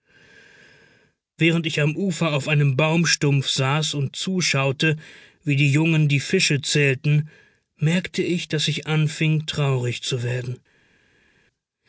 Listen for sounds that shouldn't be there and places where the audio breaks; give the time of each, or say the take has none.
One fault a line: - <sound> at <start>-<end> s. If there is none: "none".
none